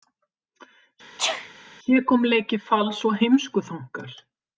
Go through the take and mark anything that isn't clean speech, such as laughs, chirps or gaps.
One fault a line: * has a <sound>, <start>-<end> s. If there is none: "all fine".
* has a sneeze, 1.2-1.5 s